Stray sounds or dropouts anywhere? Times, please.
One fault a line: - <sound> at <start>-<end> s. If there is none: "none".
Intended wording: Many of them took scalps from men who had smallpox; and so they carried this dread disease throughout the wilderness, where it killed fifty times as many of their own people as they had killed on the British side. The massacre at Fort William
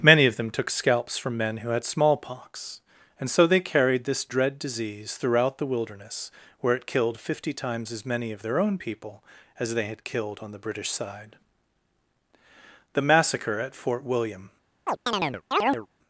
- chirp at 14.9-15.9 s